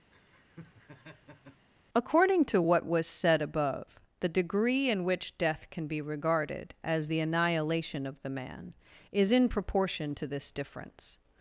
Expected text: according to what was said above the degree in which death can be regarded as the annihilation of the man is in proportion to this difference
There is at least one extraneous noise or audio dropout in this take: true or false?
true